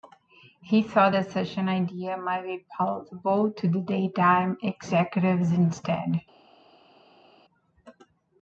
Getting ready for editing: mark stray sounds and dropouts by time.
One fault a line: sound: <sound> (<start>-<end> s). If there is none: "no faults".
no faults